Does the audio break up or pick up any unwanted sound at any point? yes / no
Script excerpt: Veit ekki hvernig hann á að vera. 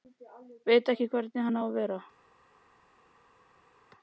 no